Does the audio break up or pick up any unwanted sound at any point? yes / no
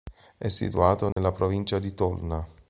yes